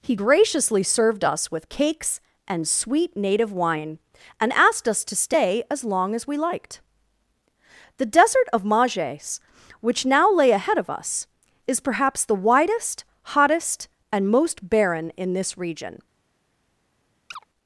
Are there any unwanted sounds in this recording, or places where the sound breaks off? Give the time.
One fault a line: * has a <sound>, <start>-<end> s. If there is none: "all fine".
* has a chirp, 17.3-17.4 s